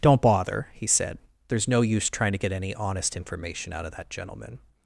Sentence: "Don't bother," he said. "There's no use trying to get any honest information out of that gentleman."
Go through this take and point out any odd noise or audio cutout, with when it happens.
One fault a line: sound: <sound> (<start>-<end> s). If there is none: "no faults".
no faults